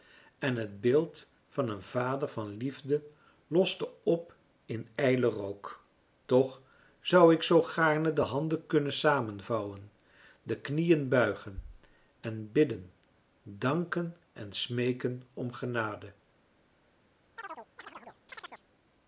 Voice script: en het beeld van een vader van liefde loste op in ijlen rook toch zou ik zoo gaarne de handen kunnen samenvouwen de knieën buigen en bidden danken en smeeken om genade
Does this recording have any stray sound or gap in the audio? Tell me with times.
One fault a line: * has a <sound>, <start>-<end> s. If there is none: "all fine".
* has a chirp, 17.4-18.6 s